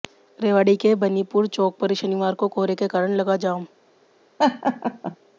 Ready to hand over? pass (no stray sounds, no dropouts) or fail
fail